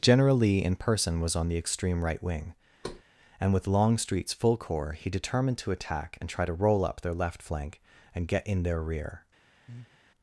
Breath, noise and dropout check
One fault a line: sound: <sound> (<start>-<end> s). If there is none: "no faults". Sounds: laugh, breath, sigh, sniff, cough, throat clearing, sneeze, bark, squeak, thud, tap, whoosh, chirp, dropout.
sound: thud (2.8-3.0 s)
sound: breath (9.7-10.0 s)